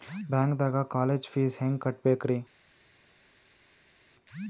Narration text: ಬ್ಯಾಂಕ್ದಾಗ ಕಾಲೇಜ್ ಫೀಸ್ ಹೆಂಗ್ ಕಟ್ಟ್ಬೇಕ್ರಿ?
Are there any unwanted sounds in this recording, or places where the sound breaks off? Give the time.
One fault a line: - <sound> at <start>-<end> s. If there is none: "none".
none